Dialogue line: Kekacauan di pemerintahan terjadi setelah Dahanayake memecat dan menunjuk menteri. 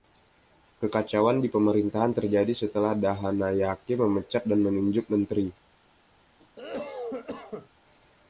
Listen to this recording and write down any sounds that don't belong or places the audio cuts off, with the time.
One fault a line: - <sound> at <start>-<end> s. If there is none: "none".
- cough at 6.4-7.7 s